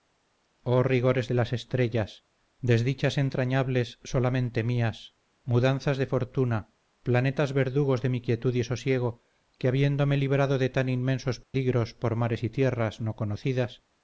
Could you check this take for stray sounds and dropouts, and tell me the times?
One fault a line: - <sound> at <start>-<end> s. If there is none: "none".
- dropout at 11.4-11.5 s